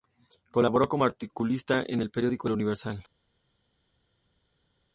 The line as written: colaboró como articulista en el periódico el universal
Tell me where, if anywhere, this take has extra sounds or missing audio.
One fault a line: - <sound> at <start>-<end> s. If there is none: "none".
none